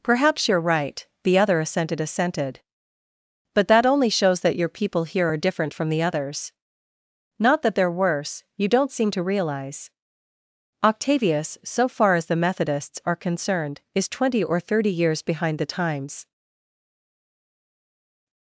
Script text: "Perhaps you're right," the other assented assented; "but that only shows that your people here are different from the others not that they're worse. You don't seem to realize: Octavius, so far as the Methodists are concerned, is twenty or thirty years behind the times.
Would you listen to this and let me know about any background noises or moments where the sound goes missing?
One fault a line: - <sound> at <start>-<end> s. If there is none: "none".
none